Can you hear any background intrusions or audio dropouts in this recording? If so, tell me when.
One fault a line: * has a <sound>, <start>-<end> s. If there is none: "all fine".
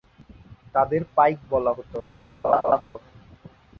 * has a laugh, 2.4-2.8 s